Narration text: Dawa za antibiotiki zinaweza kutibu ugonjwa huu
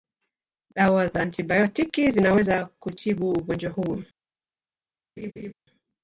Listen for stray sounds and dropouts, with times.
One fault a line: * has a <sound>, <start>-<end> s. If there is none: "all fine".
* has a laugh, 5.2-5.5 s